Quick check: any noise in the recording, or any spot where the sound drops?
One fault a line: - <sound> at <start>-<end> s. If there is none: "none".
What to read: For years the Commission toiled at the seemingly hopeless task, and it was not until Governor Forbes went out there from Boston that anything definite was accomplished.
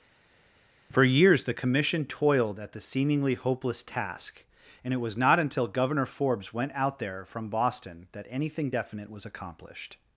none